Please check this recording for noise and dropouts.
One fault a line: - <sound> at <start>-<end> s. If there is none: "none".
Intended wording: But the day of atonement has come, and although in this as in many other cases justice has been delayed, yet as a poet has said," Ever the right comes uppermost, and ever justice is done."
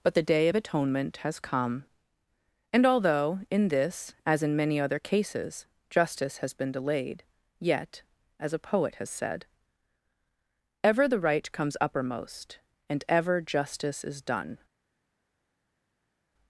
none